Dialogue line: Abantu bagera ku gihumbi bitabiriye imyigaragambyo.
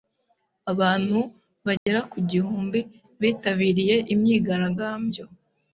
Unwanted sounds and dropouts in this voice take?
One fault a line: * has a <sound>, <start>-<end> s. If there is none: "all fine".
* has a dropout, 1.8-1.9 s